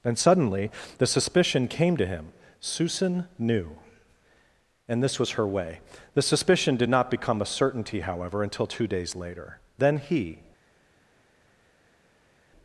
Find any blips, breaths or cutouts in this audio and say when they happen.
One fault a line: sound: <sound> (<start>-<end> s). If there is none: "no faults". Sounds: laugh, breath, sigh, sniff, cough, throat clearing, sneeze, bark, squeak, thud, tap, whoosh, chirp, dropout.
no faults